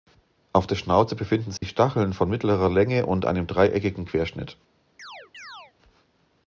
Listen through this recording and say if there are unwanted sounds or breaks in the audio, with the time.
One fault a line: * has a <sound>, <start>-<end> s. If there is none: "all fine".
* has a dropout, 1.6-1.6 s
* has a chirp, 5.0-5.7 s